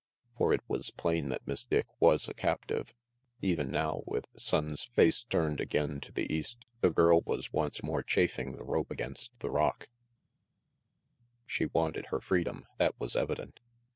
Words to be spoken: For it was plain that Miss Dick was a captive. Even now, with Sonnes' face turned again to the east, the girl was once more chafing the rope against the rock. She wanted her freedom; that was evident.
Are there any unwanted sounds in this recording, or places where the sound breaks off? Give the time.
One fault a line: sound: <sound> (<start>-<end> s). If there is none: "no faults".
no faults